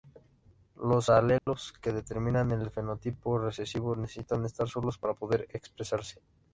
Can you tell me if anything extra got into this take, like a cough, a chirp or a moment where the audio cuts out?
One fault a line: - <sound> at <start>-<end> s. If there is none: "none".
- dropout at 1.4-1.5 s